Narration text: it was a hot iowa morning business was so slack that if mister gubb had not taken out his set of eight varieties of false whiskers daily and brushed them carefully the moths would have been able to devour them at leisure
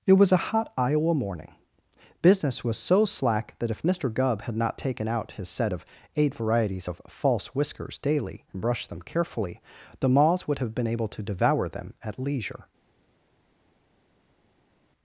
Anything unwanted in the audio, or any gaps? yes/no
no